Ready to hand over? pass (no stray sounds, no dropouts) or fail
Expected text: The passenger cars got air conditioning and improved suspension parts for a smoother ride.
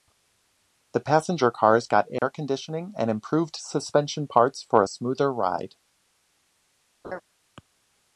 fail